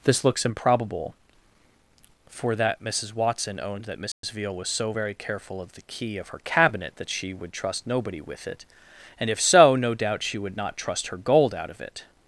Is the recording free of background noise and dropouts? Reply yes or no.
no